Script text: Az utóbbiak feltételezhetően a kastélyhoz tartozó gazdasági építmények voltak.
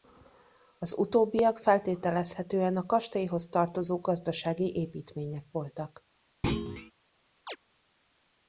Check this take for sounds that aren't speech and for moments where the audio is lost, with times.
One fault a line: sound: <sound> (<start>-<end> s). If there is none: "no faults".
sound: thud (6.4-6.9 s)
sound: chirp (7.5-7.6 s)